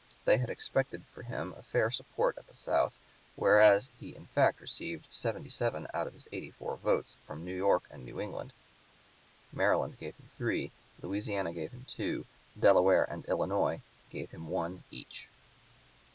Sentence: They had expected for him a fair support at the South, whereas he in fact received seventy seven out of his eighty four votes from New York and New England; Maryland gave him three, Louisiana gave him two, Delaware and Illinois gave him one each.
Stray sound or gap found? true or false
false